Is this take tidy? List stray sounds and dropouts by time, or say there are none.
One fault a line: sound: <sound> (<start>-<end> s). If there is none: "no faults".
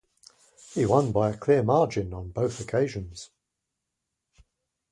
no faults